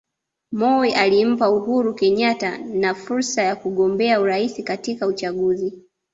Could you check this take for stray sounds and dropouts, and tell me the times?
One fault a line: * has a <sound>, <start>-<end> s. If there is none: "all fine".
all fine